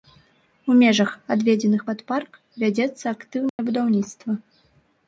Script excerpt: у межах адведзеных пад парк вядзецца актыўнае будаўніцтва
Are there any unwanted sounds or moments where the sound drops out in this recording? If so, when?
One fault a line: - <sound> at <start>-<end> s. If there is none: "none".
- dropout at 3.5-3.6 s